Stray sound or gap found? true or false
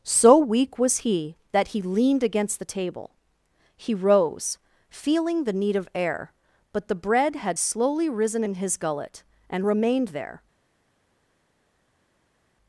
false